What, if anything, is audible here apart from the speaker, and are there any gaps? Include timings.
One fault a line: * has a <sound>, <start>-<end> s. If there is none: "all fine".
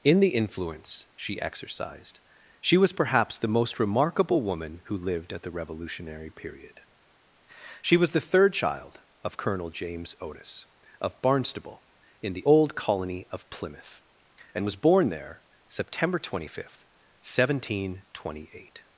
all fine